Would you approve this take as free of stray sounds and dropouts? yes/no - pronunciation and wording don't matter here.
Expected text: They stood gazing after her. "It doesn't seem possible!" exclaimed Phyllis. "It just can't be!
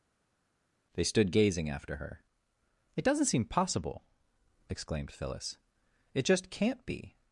yes